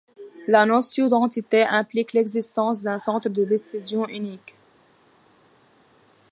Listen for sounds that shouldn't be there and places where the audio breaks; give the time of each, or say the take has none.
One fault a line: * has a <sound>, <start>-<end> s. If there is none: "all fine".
all fine